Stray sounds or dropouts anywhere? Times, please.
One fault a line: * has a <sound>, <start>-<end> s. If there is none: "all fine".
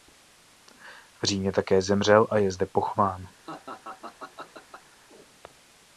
* has a laugh, 3.5-5.0 s